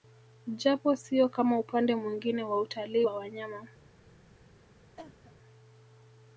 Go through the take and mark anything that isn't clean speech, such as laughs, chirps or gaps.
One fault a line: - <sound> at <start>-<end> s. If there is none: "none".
- cough at 5.0-5.3 s